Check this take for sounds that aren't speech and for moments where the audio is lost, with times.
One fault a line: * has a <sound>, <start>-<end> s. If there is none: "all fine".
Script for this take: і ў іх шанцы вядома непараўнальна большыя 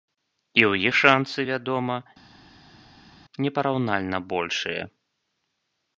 all fine